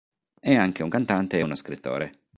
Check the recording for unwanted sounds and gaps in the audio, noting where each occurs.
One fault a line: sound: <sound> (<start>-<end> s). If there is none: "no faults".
no faults